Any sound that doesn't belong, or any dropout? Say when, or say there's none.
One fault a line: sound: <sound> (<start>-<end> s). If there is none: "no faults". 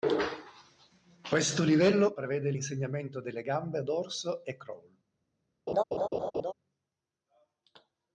sound: laugh (5.7-6.5 s)